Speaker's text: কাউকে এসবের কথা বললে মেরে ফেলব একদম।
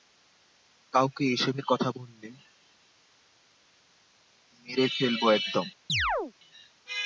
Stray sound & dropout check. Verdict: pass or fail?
fail